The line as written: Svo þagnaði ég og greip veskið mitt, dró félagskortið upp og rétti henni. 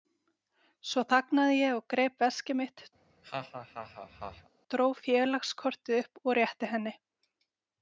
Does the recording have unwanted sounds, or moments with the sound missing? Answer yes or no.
yes